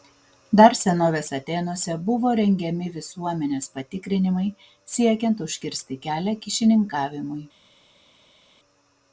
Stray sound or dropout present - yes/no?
no